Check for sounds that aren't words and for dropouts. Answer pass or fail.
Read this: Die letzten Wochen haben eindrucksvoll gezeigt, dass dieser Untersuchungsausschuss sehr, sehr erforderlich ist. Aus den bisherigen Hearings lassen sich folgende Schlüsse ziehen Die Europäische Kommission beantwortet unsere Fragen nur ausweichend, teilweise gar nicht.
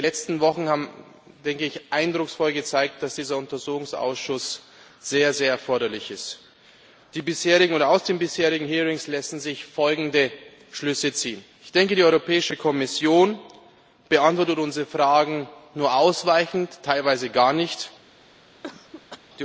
fail